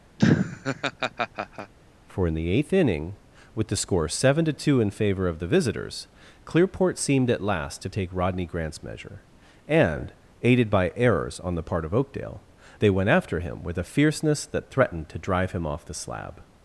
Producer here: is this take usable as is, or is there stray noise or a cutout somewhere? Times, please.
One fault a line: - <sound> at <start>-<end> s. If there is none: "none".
- laugh at 0.2-1.7 s